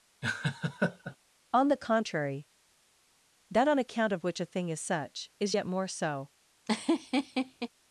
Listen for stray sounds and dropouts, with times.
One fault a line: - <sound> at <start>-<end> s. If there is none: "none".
- laugh at 0.2-1.2 s
- laugh at 6.7-7.7 s